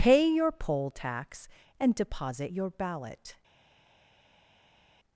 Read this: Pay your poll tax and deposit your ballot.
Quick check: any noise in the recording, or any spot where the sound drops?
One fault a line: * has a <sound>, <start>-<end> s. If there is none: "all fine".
all fine